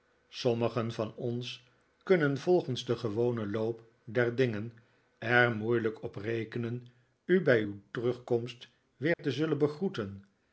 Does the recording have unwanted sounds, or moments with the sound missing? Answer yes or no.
yes